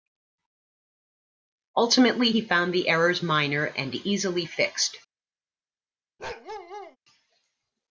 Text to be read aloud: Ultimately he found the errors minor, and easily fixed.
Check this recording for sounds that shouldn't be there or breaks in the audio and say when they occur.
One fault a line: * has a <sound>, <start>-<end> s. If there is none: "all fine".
* has a bark, 6.2-7.0 s